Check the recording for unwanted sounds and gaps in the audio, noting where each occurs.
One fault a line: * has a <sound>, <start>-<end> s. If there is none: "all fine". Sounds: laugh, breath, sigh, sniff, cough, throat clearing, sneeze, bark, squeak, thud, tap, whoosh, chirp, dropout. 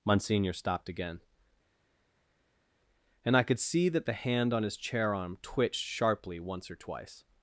all fine